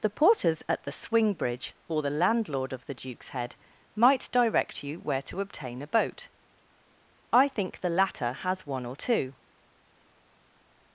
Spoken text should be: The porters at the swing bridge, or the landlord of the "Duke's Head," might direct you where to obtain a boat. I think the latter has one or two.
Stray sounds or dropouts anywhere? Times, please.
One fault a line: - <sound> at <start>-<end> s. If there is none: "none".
none